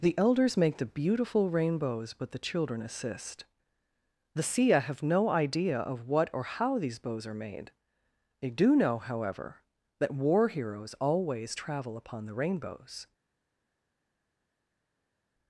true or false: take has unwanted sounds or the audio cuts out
false